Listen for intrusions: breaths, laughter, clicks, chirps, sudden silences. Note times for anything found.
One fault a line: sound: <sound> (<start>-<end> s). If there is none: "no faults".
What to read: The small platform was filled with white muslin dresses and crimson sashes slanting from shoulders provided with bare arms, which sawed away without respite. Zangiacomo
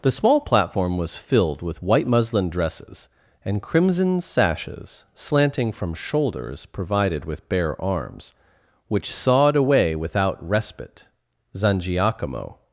no faults